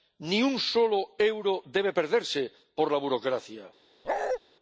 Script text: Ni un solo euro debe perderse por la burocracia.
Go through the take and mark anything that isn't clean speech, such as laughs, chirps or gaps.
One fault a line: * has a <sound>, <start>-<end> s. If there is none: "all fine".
* has a bark, 4.0-4.4 s